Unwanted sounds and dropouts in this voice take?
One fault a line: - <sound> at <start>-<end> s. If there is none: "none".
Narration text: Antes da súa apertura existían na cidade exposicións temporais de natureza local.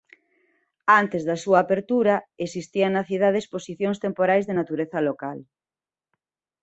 none